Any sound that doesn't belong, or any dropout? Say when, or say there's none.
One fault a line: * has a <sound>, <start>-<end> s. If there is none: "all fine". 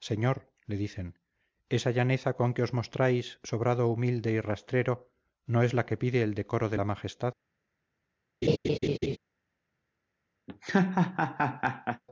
* has a laugh, 8.4-9.2 s
* has a laugh, 10.5-12.0 s